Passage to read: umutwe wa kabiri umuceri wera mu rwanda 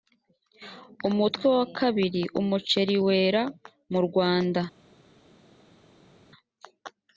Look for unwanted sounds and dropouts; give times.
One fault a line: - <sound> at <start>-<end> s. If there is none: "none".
none